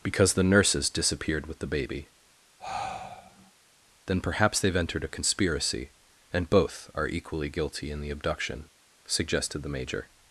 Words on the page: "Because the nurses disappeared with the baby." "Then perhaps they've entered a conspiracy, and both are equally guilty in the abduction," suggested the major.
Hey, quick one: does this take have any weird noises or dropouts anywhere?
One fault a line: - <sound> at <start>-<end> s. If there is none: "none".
- sigh at 2.6-3.5 s